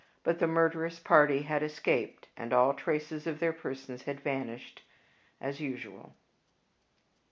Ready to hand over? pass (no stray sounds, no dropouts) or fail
pass